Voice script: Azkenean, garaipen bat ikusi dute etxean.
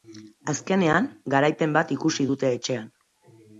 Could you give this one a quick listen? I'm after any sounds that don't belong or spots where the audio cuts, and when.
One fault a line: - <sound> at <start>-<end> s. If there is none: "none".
none